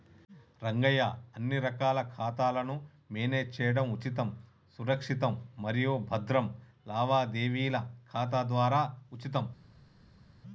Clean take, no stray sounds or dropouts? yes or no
yes